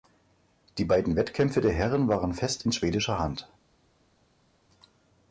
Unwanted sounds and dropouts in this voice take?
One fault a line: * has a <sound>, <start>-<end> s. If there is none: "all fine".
all fine